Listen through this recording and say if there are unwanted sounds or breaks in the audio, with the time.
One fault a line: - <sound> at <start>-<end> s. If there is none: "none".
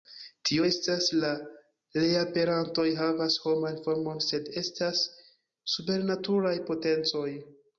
none